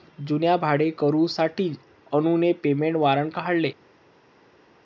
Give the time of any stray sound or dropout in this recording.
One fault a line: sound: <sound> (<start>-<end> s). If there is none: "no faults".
no faults